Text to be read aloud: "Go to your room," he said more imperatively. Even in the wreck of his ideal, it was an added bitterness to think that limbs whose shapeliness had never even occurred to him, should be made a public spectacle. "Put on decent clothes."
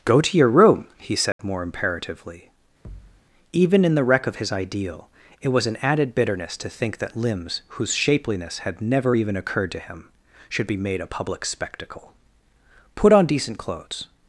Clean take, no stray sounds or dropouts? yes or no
no